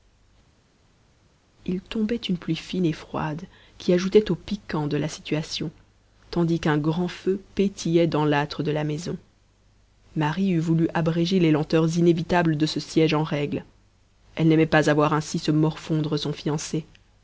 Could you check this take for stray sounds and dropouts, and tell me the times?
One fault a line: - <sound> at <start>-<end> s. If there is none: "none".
none